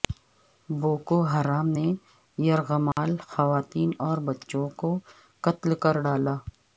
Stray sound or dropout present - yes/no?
yes